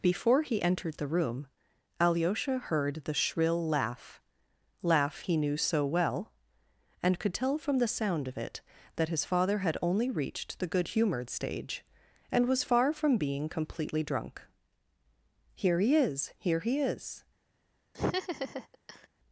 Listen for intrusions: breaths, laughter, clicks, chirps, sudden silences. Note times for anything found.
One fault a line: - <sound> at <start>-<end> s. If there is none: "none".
- laugh at 17.9-19.1 s